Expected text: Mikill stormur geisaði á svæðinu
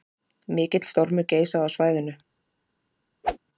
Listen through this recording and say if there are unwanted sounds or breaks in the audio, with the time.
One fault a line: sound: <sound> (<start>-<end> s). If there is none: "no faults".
sound: whoosh (3.2-3.4 s)